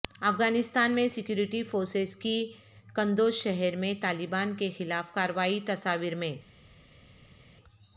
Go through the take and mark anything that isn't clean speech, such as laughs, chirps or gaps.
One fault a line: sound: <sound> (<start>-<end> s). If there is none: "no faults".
no faults